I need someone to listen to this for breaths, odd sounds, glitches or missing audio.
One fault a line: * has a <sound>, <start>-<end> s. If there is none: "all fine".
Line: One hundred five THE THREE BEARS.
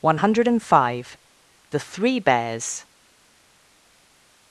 all fine